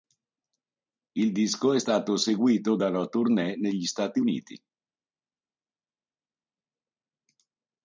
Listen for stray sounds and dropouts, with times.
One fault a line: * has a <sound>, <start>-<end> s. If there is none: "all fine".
all fine